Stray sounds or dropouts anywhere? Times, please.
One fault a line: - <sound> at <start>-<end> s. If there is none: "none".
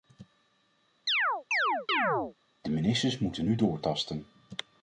- chirp at 1.1-2.3 s